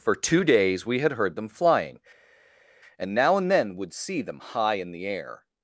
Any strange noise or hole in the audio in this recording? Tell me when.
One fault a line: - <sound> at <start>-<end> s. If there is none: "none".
none